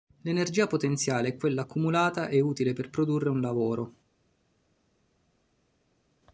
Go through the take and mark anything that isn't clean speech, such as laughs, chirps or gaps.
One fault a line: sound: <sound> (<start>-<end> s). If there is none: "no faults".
no faults